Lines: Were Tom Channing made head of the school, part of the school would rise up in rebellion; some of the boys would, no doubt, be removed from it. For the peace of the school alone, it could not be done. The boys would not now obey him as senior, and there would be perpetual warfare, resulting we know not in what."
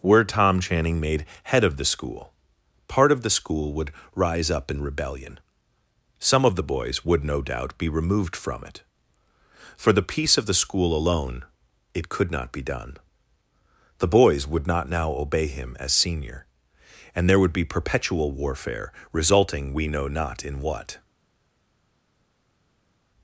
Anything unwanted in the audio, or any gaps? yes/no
no